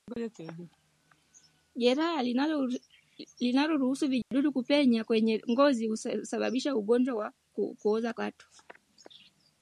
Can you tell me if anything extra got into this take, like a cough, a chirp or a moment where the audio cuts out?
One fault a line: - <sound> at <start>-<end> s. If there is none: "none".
- dropout at 4.2-4.3 s